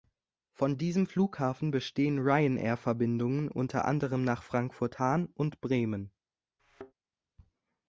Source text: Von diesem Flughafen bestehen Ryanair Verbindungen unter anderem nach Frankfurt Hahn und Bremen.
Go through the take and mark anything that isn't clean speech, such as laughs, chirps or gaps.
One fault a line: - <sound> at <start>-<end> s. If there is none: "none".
- thud at 6.6-6.9 s